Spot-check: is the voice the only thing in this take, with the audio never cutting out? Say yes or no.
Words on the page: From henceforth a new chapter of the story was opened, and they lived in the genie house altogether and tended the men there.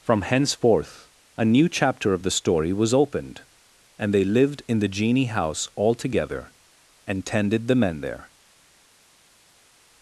yes